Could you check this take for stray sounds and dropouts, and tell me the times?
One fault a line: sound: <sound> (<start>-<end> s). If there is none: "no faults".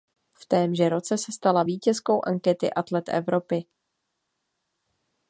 no faults